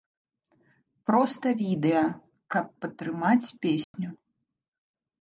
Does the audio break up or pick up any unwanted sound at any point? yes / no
yes